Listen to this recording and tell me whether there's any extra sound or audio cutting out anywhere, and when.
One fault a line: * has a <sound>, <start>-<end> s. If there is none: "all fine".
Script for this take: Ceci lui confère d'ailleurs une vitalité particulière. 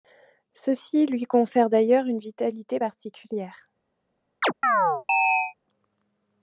* has a chirp, 4.4-5.5 s